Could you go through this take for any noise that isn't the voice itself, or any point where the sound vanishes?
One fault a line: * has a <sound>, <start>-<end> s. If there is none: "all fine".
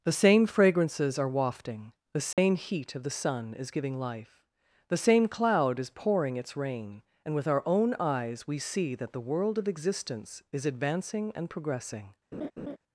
* has a dropout, 2.3-2.4 s
* has a laugh, 12.3-12.8 s